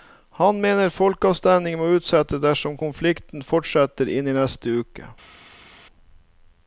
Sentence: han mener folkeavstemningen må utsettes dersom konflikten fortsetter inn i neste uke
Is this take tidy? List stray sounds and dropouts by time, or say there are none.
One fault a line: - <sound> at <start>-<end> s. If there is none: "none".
none